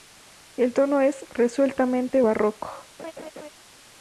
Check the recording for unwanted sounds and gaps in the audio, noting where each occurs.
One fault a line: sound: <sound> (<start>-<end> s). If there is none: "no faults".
sound: laugh (3.0-3.5 s)